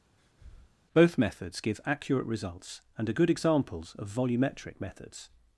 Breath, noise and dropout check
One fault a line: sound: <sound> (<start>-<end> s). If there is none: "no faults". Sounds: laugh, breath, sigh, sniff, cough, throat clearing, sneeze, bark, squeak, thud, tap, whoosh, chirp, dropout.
sound: breath (0.2-0.8 s)